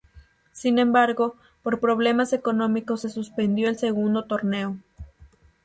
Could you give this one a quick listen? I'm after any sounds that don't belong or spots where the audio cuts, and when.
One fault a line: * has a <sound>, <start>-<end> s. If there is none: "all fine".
all fine